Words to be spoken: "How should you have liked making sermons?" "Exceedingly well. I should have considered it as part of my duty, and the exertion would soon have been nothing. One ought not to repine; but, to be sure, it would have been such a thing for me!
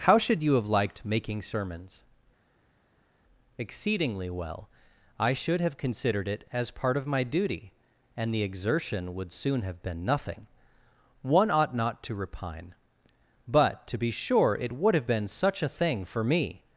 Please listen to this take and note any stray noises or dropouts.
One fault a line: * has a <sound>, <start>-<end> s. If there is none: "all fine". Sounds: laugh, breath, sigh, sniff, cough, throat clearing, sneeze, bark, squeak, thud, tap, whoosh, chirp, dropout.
all fine